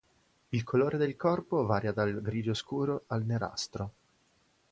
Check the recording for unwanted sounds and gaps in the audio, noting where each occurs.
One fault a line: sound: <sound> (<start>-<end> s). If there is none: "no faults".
no faults